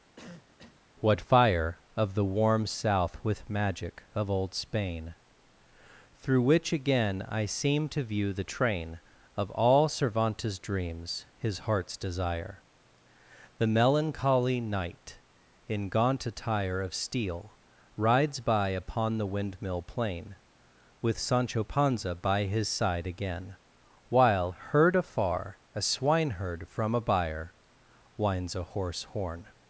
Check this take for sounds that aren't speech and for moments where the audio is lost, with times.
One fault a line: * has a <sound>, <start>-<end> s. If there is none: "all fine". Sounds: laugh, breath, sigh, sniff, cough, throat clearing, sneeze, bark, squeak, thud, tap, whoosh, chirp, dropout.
* has a cough, 0.2-0.8 s